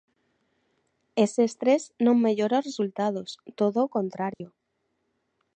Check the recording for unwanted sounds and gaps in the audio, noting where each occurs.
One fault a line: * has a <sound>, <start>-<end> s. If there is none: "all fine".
* has a dropout, 4.3-4.4 s